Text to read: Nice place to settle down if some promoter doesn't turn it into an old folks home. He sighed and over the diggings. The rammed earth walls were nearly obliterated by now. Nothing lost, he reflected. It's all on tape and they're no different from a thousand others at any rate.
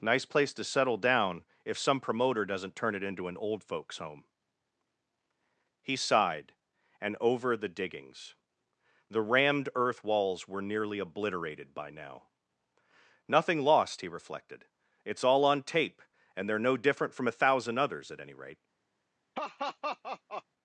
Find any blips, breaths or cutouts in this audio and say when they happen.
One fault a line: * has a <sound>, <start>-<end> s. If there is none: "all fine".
* has a laugh, 19.3-20.4 s